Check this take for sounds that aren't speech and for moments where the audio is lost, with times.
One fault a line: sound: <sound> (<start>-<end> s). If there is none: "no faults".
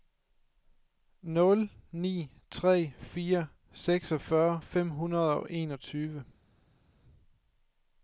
no faults